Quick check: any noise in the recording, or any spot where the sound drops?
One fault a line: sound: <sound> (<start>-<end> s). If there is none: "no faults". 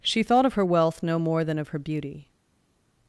no faults